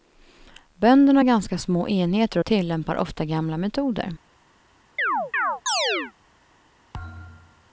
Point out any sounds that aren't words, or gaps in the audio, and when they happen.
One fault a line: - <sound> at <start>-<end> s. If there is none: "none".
- chirp at 5.0-6.1 s
- thud at 6.9-7.7 s